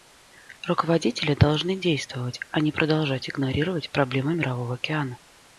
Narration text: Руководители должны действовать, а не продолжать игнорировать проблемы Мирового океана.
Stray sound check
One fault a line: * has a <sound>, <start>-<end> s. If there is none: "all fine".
all fine